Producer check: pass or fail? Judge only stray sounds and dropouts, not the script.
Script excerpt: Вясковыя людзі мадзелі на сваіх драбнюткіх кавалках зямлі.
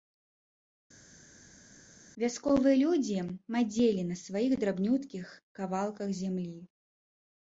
pass